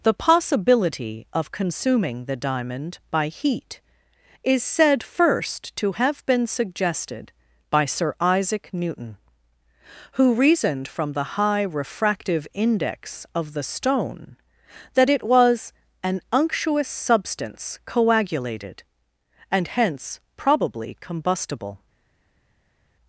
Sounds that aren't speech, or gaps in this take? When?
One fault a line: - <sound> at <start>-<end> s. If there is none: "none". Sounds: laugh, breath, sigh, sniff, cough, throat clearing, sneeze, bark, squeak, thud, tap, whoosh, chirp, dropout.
none